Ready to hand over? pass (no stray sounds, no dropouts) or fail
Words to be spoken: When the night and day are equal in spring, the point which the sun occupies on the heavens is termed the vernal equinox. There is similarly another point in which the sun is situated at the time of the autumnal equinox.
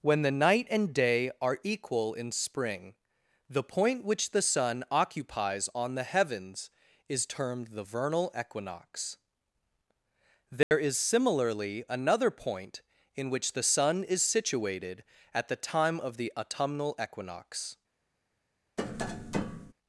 fail